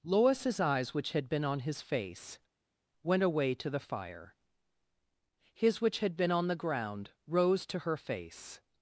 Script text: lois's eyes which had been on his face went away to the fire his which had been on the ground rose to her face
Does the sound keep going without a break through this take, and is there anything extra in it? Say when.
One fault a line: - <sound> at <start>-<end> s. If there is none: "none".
none